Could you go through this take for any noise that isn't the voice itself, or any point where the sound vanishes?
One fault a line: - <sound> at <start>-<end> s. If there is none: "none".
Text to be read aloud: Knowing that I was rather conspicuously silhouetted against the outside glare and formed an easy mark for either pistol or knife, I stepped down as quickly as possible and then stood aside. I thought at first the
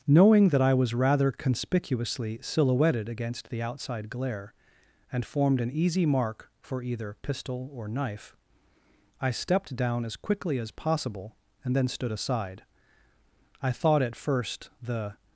none